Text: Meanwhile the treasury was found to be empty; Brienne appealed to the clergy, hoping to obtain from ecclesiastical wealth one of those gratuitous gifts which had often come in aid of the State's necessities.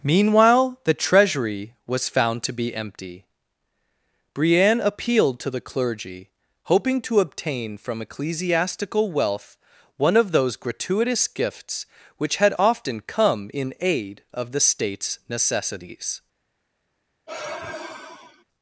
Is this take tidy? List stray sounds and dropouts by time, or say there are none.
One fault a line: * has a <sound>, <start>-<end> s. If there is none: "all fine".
* has a sigh, 17.3-18.4 s